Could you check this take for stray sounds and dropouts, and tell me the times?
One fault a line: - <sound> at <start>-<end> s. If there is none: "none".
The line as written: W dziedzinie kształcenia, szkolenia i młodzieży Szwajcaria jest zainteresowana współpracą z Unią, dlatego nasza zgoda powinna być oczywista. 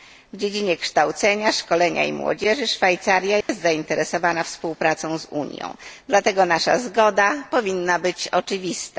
- dropout at 3.4-3.5 s